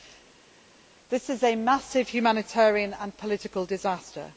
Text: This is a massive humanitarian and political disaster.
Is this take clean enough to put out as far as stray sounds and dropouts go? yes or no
yes